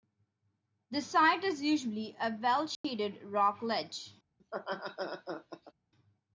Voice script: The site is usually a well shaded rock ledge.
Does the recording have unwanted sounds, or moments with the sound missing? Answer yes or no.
yes